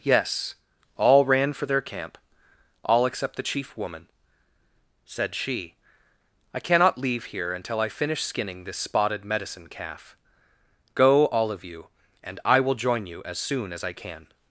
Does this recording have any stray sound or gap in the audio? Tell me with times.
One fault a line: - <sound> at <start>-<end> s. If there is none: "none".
none